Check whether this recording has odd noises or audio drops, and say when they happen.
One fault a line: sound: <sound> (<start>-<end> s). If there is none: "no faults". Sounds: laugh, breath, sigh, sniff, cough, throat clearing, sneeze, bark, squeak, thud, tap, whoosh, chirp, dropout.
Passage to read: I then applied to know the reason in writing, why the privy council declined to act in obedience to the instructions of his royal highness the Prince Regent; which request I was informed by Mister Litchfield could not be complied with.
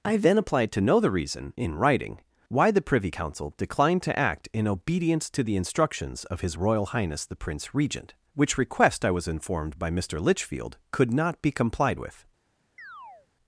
sound: chirp (12.8-13.3 s)